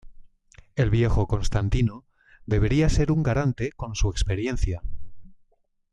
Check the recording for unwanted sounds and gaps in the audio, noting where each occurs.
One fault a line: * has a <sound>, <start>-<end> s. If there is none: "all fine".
all fine